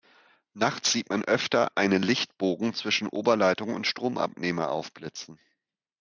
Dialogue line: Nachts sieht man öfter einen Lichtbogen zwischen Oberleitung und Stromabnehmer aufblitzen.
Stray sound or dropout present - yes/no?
no